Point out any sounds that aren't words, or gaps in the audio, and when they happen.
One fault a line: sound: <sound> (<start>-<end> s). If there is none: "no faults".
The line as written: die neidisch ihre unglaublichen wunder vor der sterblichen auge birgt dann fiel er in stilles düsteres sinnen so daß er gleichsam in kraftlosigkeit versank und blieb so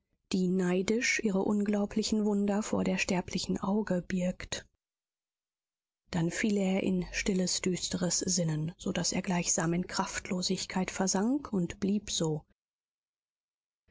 no faults